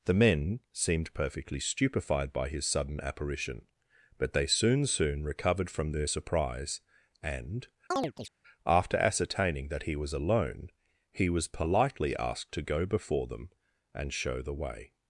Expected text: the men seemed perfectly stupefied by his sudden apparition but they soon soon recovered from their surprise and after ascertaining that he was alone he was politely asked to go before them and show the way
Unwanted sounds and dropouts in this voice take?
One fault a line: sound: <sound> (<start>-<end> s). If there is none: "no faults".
sound: chirp (7.9-8.3 s)